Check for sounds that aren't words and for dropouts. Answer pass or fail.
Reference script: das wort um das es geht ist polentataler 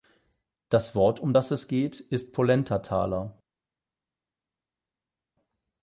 pass